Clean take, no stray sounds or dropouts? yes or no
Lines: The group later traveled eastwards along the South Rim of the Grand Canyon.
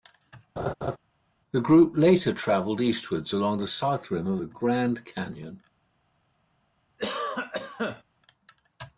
no